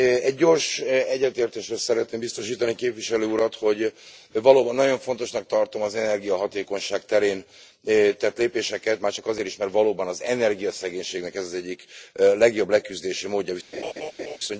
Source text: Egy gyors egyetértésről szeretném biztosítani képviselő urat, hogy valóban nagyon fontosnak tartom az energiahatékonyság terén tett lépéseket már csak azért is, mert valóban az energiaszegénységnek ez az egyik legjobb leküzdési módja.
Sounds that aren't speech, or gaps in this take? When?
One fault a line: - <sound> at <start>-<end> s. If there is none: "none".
- laugh at 13.7-14.4 s